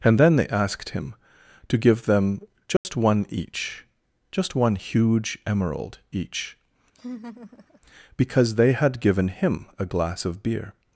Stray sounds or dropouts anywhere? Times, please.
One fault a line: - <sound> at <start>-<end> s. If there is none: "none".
- dropout at 2.8-2.8 s
- laugh at 6.9-7.8 s